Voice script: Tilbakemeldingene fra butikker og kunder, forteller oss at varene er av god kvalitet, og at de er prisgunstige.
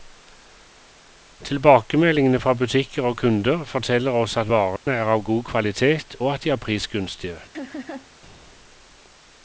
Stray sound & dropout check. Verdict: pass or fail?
fail